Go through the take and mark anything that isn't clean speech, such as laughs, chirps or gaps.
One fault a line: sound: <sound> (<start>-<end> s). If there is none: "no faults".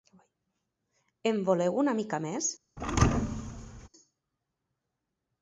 sound: thud (2.8-3.9 s)